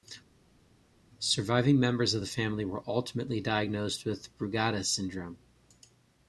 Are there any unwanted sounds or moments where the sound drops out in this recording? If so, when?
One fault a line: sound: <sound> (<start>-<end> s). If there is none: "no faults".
no faults